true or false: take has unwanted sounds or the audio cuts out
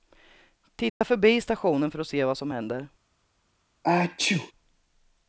true